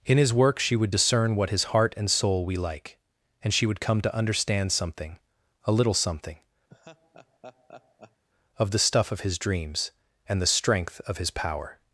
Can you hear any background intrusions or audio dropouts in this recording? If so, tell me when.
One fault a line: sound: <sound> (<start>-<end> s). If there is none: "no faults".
sound: laugh (6.7-8.2 s)